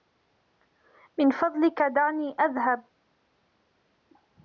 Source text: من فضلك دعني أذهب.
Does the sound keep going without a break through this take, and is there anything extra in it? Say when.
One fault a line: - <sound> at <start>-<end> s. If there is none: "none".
none